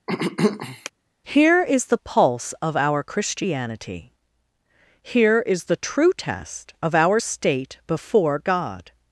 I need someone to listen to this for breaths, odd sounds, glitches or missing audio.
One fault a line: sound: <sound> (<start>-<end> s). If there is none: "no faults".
sound: throat clearing (0.1-0.9 s)